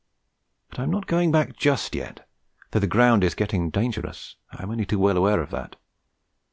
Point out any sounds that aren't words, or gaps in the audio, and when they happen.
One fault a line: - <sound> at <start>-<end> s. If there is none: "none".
none